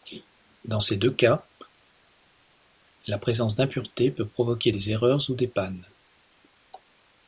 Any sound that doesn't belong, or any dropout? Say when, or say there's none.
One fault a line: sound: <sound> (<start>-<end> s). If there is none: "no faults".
no faults